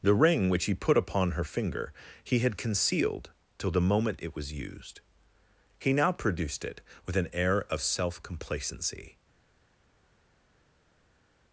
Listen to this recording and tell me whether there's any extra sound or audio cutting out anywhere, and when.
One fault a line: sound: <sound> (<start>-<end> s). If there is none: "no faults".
no faults